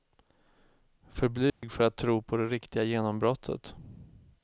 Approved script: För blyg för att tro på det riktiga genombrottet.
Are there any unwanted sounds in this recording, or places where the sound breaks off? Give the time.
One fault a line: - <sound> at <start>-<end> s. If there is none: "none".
- dropout at 1.5-1.6 s